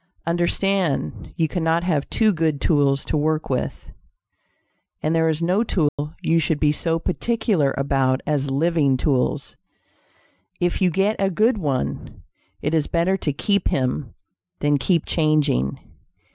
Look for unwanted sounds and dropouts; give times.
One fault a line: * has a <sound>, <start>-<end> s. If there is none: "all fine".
* has a dropout, 5.9-6.0 s